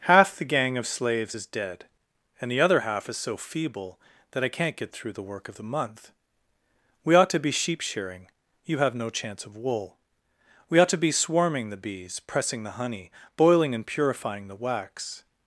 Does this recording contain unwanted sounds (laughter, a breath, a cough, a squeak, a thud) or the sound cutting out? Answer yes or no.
no